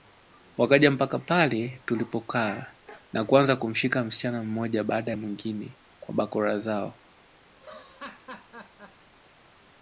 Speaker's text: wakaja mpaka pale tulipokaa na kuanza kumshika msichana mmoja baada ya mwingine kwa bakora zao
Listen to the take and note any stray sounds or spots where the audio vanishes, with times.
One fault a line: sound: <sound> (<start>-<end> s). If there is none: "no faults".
sound: laugh (7.5-9.1 s)